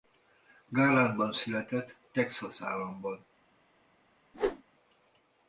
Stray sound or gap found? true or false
true